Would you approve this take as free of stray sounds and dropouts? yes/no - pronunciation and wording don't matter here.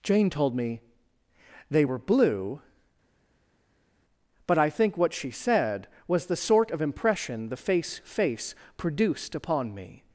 yes